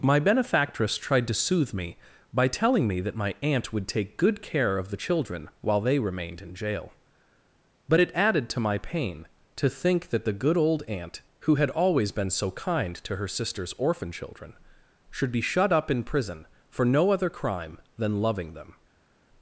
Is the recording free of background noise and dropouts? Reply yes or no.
yes